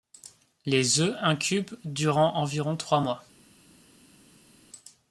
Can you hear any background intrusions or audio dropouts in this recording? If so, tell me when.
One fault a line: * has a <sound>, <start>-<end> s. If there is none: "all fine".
all fine